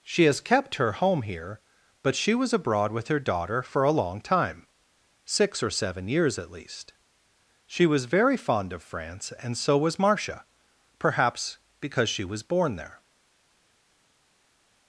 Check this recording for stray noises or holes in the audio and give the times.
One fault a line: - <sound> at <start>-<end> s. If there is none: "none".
none